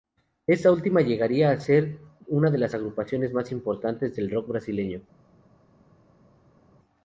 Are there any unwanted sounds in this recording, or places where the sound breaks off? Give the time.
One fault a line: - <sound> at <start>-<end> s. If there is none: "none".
none